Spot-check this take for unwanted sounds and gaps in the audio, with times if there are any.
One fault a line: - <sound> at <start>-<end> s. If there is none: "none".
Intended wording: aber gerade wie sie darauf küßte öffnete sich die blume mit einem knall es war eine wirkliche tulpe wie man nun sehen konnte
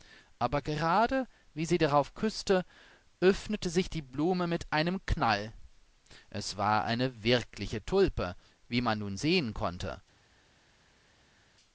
none